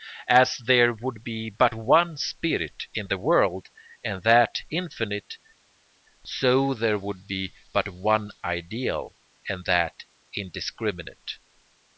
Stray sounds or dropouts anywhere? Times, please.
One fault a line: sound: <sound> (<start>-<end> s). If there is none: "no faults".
no faults